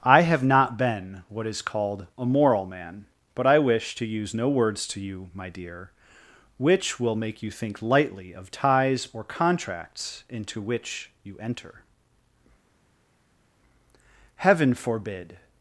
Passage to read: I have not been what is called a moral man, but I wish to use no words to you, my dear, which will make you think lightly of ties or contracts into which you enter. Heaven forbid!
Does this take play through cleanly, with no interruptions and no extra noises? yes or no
yes